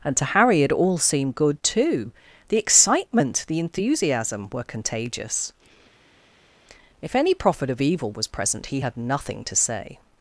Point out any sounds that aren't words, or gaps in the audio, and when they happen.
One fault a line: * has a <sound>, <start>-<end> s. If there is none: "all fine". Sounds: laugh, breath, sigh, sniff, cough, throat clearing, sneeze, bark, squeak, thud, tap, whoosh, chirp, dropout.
all fine